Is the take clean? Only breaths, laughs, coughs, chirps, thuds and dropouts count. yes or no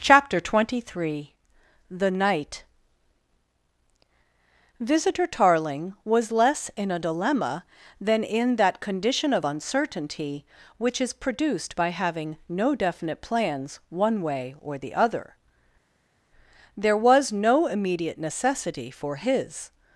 yes